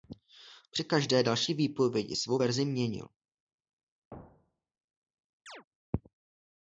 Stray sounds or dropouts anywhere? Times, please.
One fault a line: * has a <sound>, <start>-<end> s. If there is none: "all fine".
* has a thud, 4.1-4.8 s
* has a chirp, 5.5-5.6 s